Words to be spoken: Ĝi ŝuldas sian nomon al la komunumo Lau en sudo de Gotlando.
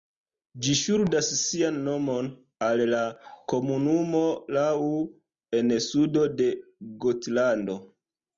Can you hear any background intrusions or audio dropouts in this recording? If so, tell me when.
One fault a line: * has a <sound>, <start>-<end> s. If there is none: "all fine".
all fine